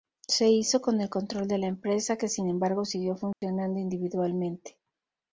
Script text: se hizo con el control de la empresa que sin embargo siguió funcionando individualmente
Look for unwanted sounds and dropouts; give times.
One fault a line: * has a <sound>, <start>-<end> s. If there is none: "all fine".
* has a dropout, 3.3-3.4 s